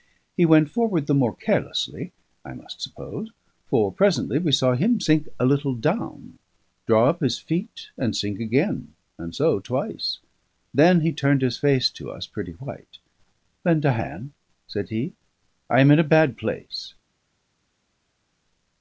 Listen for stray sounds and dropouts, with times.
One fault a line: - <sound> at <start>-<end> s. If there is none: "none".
none